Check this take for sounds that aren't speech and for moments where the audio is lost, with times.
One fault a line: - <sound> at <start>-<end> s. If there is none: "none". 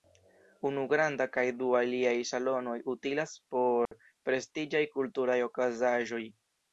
- dropout at 3.9-3.9 s